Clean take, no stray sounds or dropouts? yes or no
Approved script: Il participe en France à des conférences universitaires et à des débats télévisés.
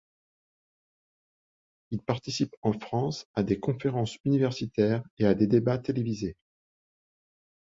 yes